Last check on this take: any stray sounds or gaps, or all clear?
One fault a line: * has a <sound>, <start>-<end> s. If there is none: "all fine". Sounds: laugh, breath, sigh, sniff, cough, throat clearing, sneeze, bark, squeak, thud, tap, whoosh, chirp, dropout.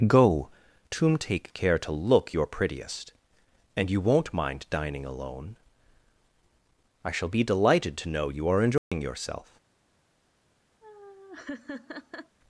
* has a dropout, 8.8-8.9 s
* has a laugh, 10.8-12.4 s